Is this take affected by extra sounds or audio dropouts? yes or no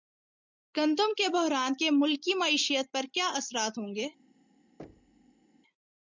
yes